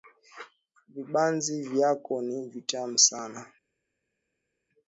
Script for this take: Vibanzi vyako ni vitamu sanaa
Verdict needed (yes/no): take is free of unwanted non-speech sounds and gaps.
yes